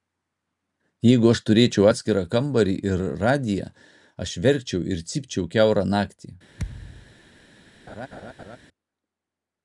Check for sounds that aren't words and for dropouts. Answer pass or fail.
fail